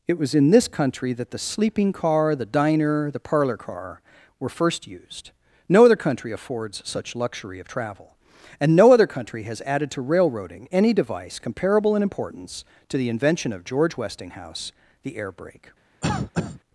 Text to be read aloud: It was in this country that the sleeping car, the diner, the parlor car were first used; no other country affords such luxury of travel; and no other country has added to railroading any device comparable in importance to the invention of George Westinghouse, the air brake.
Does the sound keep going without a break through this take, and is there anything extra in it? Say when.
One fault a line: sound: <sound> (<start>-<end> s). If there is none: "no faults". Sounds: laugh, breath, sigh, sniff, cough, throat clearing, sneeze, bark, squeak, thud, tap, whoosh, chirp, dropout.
sound: cough (16.0-16.6 s)